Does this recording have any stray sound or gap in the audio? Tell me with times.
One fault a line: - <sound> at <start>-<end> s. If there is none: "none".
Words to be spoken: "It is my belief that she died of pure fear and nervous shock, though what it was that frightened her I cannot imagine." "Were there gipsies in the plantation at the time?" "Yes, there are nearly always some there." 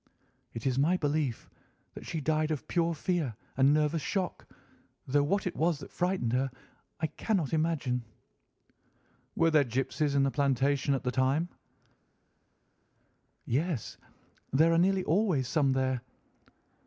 none